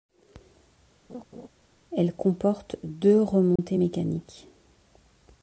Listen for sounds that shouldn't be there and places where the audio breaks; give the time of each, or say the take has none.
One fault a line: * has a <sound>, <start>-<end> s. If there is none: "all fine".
* has a laugh, 1.1-1.5 s
* has a dropout, 3.6-3.6 s